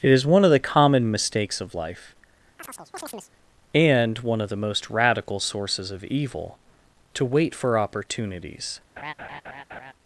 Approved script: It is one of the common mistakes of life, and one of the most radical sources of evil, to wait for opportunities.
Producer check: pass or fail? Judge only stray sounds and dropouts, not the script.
fail